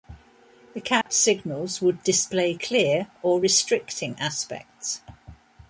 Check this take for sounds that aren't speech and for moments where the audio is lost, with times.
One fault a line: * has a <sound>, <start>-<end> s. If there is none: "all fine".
* has a dropout, 1.0-1.1 s